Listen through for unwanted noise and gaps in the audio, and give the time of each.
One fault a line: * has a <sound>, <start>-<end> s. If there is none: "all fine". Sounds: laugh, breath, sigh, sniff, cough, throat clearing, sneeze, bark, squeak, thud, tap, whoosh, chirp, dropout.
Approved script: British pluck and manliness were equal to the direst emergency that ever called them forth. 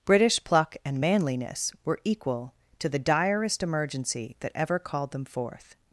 all fine